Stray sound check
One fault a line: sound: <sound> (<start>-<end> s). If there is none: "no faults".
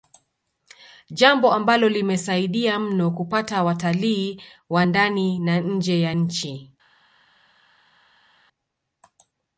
no faults